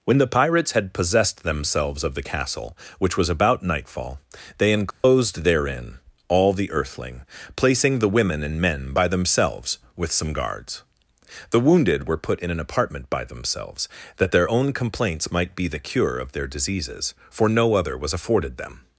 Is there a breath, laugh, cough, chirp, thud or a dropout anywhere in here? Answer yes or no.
yes